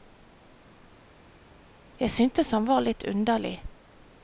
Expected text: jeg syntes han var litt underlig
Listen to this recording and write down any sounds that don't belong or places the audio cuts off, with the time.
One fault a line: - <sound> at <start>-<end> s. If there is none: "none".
none